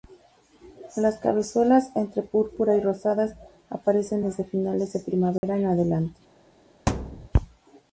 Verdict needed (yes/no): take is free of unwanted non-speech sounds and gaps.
no